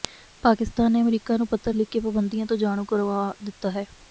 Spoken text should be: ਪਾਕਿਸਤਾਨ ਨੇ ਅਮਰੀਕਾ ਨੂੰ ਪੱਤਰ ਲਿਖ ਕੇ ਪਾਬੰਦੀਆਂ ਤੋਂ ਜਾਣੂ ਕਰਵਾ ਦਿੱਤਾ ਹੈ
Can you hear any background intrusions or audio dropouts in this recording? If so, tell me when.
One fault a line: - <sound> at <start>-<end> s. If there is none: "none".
none